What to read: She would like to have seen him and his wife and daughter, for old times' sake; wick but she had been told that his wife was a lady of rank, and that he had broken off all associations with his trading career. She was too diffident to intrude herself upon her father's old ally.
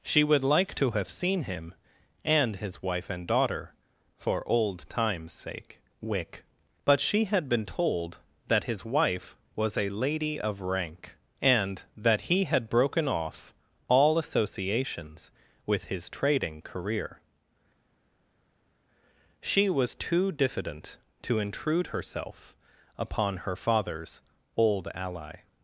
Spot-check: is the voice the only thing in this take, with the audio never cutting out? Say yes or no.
yes